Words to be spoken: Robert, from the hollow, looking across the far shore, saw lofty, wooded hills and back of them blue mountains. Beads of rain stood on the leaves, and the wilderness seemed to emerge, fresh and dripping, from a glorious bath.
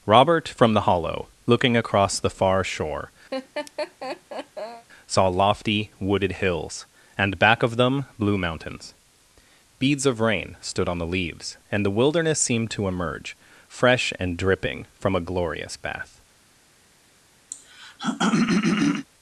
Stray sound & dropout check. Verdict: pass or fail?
fail